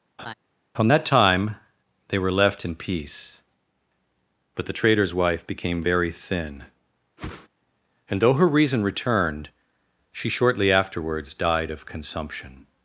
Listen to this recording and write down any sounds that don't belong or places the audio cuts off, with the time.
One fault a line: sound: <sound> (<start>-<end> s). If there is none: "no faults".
sound: laugh (0.2-0.3 s)
sound: whoosh (7.2-7.5 s)